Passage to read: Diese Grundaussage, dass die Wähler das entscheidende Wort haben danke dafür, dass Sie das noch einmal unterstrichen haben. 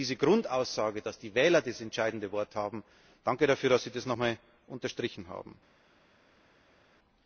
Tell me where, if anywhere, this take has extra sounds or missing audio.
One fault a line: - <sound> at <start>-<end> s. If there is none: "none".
none